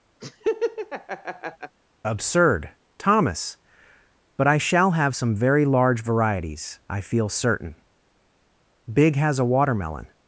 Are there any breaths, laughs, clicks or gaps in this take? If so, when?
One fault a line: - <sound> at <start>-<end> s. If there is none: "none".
- laugh at 0.2-1.8 s